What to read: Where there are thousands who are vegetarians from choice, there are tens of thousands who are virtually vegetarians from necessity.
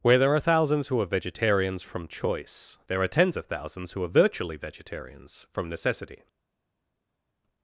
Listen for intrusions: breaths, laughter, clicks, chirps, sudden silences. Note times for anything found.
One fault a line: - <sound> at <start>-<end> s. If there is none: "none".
none